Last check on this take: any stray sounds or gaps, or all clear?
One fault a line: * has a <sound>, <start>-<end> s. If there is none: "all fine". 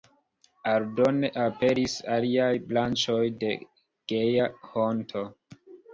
all fine